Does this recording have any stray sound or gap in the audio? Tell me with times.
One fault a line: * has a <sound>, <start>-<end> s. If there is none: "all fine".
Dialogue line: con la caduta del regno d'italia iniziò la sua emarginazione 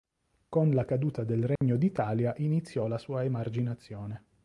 * has a dropout, 1.6-1.6 s